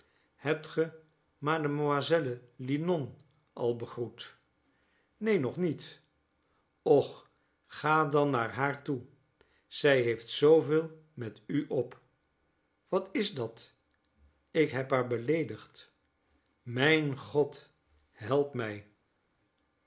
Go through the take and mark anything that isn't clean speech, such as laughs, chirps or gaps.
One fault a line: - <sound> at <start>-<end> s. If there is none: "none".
none